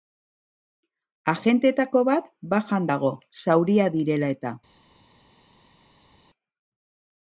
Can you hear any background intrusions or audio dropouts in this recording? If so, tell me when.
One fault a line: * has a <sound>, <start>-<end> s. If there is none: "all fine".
all fine